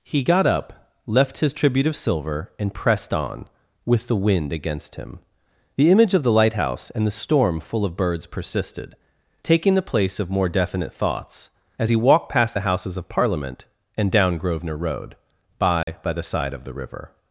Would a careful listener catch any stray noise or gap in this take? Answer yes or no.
yes